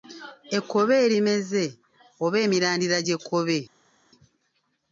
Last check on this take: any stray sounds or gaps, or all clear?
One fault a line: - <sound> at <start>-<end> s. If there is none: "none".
none